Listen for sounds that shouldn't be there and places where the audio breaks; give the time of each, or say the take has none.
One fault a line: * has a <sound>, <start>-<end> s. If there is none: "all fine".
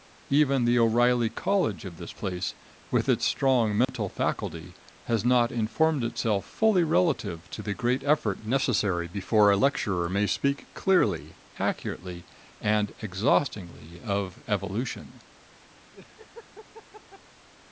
* has a dropout, 3.8-3.9 s
* has a laugh, 15.9-17.2 s